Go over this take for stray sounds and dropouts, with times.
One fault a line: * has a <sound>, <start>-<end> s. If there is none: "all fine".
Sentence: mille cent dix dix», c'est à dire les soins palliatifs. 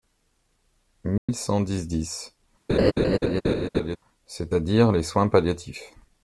* has a dropout, 1.2-1.3 s
* has a laugh, 2.7-4.0 s